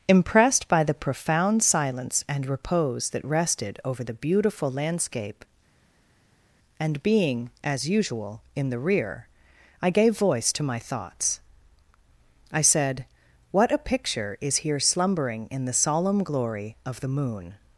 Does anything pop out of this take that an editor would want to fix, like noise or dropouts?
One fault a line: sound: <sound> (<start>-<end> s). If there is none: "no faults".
no faults